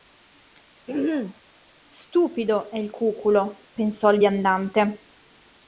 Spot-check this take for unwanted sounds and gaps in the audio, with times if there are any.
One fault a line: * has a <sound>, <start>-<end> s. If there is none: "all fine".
* has a throat clearing, 0.9-1.4 s